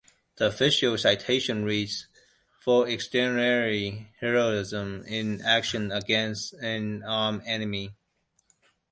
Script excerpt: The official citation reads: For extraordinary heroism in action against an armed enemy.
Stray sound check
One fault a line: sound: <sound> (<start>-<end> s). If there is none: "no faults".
no faults